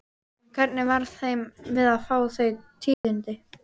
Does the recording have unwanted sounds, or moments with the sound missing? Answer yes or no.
yes